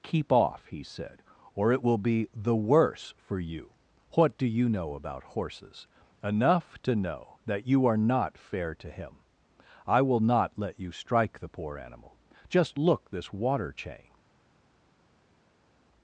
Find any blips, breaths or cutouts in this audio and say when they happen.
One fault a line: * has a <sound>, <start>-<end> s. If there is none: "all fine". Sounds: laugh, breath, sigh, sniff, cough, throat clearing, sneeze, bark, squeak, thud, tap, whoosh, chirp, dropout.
all fine